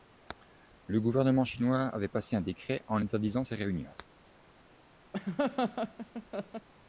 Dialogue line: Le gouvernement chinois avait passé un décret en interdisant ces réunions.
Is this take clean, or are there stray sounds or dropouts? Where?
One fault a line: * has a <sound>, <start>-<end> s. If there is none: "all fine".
* has a laugh, 5.1-6.7 s